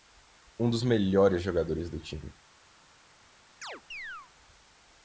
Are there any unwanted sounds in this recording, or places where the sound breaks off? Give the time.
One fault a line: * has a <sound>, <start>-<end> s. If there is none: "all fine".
* has a chirp, 3.6-4.3 s